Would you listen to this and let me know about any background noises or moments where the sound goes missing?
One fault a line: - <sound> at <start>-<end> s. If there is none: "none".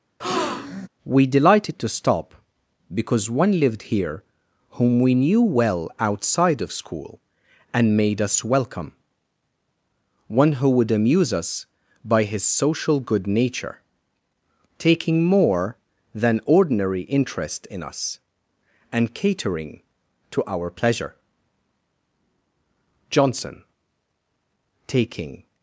- breath at 0.2-0.9 s